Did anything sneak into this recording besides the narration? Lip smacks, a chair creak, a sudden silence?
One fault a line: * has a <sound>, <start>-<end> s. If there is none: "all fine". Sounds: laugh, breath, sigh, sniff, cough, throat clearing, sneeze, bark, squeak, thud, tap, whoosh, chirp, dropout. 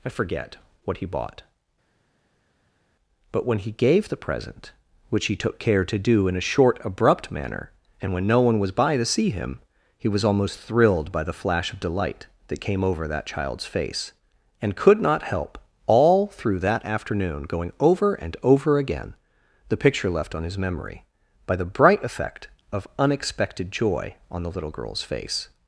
all fine